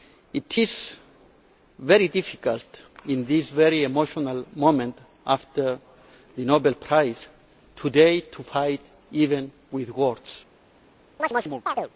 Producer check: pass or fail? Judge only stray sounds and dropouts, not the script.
fail